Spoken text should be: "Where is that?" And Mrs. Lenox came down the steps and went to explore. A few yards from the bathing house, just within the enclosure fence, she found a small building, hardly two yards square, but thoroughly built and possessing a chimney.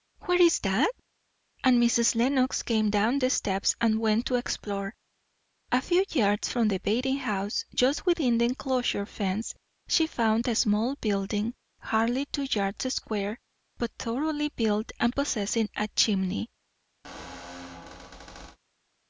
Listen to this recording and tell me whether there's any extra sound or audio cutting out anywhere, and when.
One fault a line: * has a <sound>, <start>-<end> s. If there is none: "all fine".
* has a squeak, 17.0-18.6 s